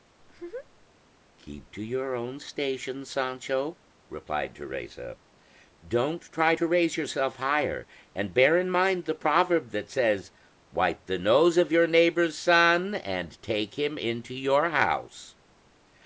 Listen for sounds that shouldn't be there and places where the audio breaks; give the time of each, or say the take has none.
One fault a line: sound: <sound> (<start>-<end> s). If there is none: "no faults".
sound: laugh (0.2-0.9 s)